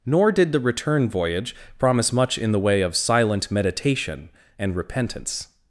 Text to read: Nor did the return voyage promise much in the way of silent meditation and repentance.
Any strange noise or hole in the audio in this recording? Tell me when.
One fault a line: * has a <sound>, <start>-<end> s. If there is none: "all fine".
all fine